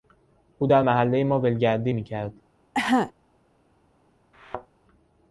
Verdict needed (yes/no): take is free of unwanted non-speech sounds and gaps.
no